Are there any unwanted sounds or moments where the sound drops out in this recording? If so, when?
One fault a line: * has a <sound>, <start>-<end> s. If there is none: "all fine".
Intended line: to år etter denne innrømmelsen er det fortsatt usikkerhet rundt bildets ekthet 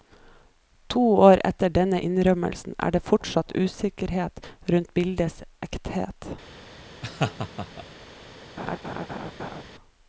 * has a laugh, 7.0-7.9 s
* has a laugh, 8.6-9.6 s